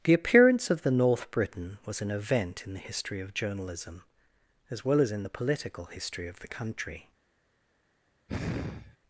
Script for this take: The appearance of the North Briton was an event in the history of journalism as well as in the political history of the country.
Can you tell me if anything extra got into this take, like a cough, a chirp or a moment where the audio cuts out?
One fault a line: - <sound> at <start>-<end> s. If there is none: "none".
- sigh at 8.3-9.0 s